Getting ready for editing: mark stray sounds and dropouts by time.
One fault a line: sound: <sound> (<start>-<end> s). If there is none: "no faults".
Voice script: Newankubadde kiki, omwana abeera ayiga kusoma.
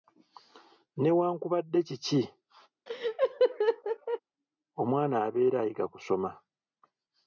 sound: laugh (2.9-4.2 s)